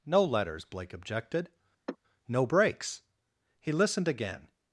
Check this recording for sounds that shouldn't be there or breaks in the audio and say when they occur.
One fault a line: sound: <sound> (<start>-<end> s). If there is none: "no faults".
sound: sigh (1.9-2.0 s)